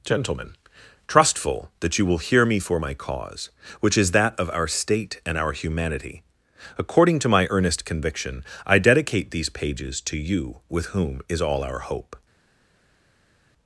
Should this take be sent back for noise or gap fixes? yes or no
no